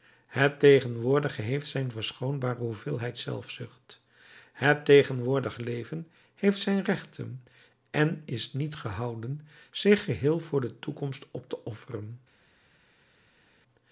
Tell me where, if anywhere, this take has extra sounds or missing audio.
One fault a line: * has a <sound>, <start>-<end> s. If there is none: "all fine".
all fine